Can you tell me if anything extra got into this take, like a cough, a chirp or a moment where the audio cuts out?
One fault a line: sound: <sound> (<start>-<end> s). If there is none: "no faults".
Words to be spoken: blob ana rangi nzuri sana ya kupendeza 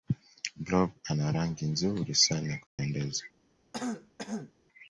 sound: dropout (2.7-2.8 s)
sound: throat clearing (3.7-4.5 s)